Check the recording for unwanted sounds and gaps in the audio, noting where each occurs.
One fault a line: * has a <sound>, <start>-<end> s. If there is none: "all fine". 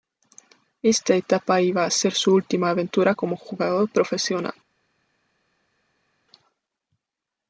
all fine